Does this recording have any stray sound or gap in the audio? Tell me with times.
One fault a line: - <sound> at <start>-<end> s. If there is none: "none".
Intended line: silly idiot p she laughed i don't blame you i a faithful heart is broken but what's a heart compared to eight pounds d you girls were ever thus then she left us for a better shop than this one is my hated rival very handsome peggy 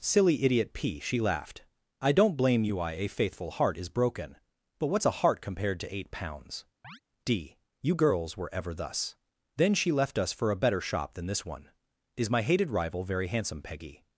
- chirp at 6.8-7.0 s